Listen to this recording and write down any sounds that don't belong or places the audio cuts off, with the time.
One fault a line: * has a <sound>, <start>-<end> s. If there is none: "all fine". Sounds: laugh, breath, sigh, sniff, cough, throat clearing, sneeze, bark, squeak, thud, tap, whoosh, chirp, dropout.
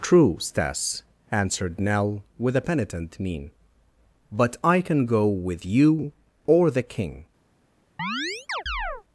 * has a chirp, 8.0-9.0 s